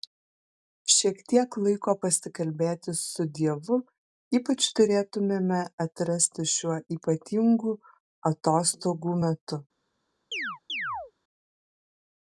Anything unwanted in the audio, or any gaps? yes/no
yes